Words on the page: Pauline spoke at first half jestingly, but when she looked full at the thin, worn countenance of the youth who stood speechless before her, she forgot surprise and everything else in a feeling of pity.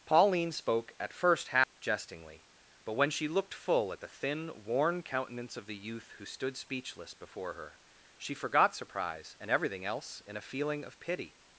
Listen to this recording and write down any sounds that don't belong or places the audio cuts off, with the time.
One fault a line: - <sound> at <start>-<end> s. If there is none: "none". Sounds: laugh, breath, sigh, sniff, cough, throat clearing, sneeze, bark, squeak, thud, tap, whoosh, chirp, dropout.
- dropout at 1.6-1.8 s